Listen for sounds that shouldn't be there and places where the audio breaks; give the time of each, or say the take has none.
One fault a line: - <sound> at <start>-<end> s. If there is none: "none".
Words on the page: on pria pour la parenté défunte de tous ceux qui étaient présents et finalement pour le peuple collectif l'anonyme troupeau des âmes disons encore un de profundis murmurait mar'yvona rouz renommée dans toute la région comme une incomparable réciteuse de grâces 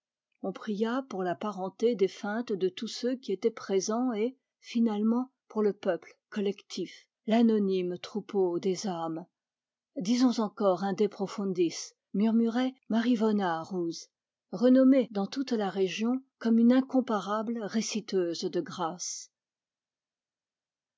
none